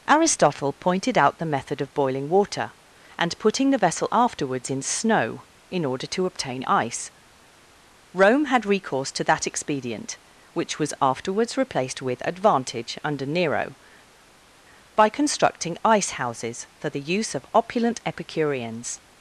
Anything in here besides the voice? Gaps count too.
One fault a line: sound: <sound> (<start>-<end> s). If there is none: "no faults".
no faults